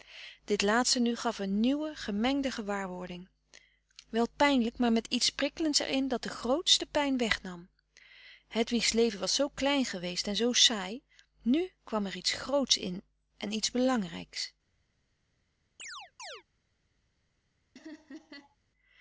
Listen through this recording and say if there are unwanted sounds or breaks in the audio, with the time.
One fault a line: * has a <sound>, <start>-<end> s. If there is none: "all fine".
* has a chirp, 15.8-16.4 s
* has a laugh, 17.8-18.6 s